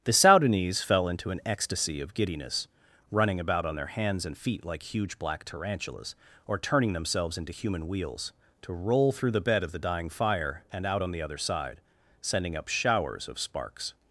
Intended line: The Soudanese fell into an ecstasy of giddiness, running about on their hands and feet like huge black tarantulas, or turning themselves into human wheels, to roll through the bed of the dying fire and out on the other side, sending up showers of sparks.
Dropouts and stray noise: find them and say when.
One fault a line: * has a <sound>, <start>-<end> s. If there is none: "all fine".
all fine